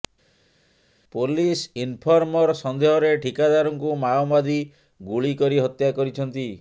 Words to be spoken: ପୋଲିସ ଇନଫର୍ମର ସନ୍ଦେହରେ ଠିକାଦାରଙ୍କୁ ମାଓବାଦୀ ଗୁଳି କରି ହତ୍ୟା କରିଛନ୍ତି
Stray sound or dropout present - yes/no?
no